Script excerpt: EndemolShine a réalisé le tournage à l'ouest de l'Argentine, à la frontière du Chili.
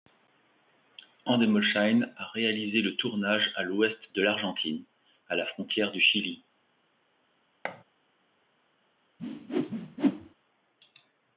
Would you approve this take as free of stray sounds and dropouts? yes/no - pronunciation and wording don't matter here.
no